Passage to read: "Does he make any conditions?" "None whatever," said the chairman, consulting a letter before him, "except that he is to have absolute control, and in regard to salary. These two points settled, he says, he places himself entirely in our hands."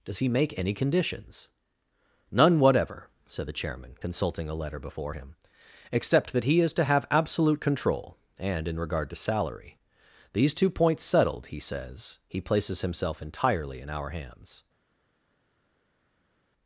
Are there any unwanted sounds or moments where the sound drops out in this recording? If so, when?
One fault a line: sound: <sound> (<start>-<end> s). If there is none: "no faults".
no faults